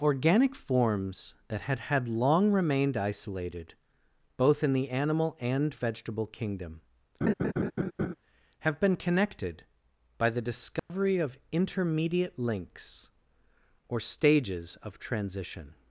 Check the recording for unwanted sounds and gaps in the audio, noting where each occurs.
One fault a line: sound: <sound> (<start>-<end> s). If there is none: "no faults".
sound: laugh (7.2-8.1 s)
sound: dropout (10.8-10.9 s)